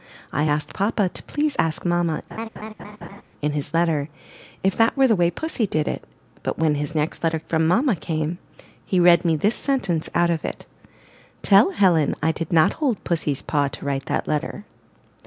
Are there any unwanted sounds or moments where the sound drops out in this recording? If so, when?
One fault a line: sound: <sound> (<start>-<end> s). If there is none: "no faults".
sound: laugh (2.3-3.2 s)